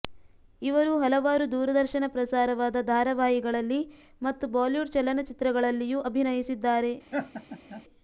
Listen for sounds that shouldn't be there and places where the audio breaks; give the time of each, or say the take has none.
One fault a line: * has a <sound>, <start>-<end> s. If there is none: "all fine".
* has a laugh, 7.1-7.8 s